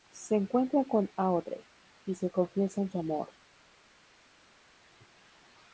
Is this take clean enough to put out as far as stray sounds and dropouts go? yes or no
yes